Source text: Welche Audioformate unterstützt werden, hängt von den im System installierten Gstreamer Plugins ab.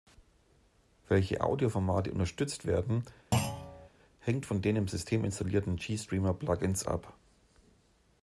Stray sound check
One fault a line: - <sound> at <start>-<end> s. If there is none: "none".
- thud at 3.3-3.9 s